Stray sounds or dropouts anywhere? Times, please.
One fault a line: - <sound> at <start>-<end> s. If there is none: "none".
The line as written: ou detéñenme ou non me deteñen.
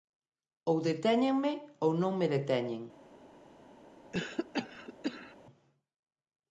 - cough at 4.1-5.4 s